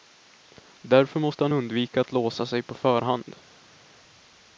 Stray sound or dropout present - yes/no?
no